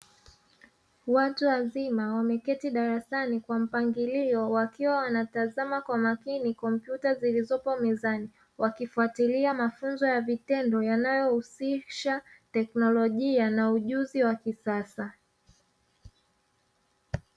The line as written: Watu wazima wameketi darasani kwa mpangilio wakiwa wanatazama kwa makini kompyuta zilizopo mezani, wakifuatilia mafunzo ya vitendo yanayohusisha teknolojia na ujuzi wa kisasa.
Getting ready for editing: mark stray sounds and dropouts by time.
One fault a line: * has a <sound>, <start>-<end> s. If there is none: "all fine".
all fine